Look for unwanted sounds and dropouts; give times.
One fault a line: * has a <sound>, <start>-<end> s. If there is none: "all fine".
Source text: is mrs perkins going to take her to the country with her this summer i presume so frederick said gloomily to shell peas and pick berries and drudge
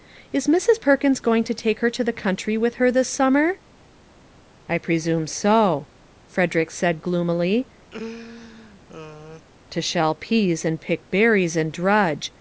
* has a laugh, 7.9-9.5 s